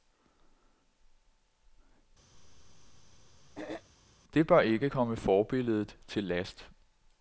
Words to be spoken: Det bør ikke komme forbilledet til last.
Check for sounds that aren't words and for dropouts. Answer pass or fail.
fail